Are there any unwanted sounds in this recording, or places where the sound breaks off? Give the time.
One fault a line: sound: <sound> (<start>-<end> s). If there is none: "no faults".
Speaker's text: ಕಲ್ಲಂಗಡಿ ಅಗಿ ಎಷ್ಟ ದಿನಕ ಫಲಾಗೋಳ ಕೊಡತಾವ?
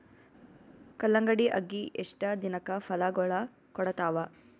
no faults